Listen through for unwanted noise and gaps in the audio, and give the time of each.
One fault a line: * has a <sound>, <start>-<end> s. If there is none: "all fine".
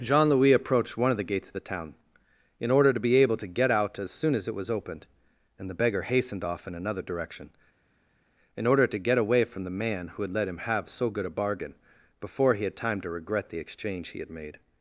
all fine